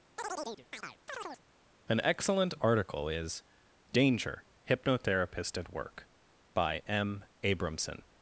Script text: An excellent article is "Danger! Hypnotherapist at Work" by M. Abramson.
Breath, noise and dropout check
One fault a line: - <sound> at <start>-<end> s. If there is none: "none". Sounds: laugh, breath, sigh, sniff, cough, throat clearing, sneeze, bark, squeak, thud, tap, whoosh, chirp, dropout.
- chirp at 0.2-1.4 s